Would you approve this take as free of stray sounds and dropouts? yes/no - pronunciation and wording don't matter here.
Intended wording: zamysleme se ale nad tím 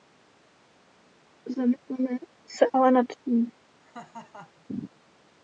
no